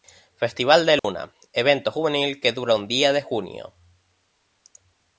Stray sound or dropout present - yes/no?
yes